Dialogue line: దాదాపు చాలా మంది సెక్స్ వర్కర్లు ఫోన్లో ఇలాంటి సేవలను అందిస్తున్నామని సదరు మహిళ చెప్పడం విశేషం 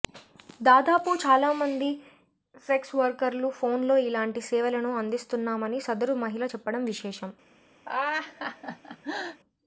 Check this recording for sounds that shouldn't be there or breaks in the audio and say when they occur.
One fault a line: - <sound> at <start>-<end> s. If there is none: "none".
- laugh at 7.9-9.4 s